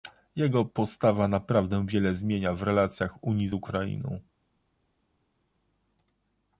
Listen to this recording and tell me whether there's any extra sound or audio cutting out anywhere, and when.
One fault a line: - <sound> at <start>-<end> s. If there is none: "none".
none